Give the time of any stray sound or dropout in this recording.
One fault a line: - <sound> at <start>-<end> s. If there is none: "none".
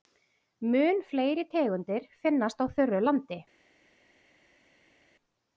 none